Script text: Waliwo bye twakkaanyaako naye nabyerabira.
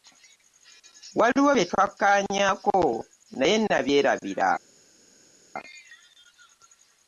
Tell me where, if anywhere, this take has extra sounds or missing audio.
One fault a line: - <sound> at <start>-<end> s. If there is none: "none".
none